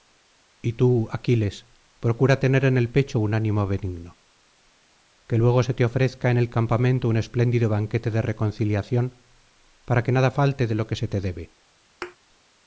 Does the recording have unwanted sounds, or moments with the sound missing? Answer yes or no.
yes